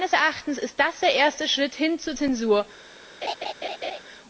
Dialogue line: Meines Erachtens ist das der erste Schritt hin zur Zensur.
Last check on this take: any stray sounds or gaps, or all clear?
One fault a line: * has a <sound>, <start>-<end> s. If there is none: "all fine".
* has a laugh, 3.2-4.0 s